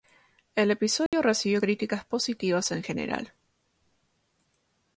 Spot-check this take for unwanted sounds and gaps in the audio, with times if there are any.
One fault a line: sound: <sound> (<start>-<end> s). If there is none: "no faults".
sound: dropout (1.1-1.1 s)